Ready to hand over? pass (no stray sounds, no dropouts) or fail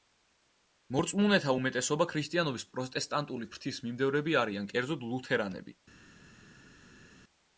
pass